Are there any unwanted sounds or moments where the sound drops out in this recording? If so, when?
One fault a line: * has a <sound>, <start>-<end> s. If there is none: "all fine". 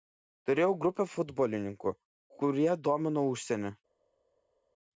all fine